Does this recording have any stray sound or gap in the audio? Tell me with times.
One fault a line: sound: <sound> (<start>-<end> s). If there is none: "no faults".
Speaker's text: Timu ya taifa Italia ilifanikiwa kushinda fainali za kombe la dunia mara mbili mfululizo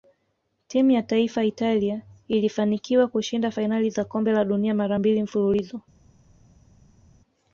no faults